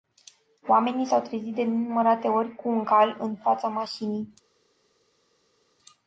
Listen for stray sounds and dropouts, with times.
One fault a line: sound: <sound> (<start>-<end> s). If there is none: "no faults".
no faults